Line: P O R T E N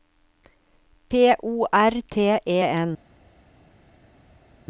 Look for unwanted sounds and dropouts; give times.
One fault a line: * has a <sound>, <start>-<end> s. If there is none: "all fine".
all fine